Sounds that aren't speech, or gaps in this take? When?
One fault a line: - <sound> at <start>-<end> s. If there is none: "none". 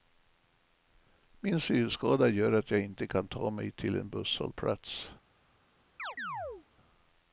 - chirp at 6.0-6.7 s